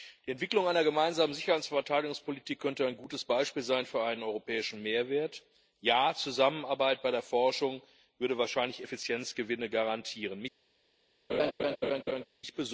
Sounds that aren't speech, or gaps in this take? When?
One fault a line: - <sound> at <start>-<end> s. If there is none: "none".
- laugh at 11.3-12.3 s